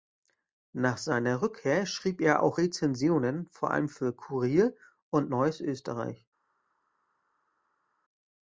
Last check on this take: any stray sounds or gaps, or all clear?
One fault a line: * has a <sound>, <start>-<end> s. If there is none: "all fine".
all fine